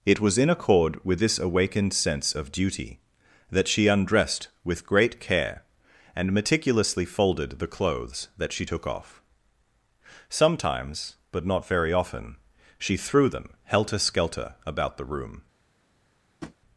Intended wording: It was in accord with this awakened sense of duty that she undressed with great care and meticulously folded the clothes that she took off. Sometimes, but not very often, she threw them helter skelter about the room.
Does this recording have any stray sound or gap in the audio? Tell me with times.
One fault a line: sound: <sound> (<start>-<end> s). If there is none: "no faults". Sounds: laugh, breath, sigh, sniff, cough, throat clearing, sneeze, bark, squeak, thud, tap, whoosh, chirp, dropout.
sound: tap (16.4-16.6 s)